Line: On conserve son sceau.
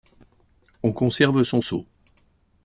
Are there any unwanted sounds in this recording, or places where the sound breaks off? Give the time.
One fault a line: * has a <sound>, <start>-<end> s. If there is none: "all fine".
all fine